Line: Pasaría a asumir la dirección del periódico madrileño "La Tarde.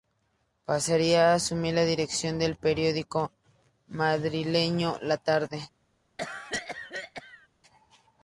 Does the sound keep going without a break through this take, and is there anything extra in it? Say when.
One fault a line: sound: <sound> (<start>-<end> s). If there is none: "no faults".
sound: cough (6.2-7.5 s)